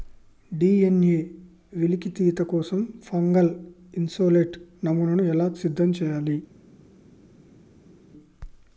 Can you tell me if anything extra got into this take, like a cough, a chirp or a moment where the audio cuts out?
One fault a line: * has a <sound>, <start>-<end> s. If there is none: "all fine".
all fine